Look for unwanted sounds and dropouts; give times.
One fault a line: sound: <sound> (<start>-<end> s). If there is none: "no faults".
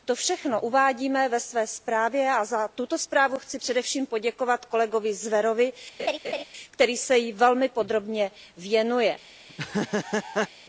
sound: laugh (6.0-6.4 s)
sound: laugh (9.5-10.5 s)